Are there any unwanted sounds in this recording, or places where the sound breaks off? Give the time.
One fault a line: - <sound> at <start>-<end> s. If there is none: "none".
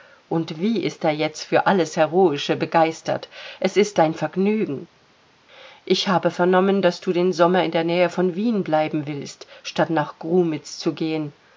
none